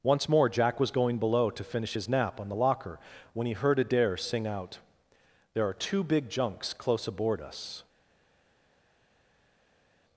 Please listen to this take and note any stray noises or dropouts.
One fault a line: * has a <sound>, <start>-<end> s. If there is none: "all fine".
all fine